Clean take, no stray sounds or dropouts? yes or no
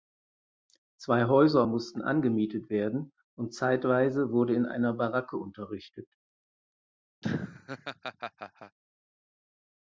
no